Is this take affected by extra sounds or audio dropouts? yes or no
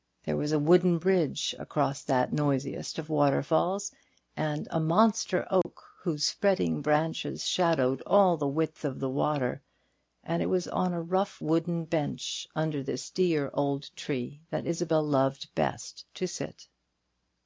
yes